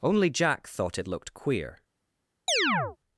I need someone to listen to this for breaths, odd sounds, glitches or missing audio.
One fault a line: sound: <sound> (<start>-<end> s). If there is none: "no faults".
sound: chirp (2.5-3.0 s)